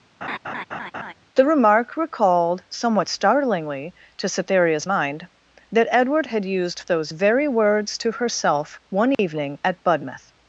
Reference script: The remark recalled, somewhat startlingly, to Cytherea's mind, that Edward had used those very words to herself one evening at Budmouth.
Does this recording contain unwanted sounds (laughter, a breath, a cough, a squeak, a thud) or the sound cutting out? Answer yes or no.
yes